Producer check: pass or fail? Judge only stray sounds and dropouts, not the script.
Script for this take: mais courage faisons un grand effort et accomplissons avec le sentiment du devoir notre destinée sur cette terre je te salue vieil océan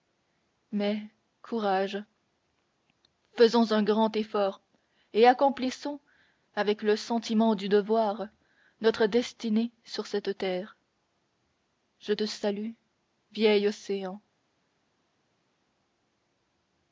pass